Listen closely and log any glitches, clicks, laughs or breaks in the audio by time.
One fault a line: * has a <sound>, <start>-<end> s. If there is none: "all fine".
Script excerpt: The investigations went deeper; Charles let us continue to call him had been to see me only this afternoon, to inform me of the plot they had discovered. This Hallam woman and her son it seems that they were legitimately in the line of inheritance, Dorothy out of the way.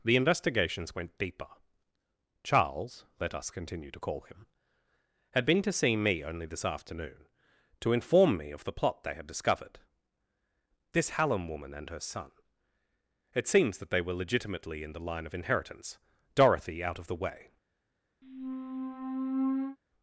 * has a squeak, 18.2-19.8 s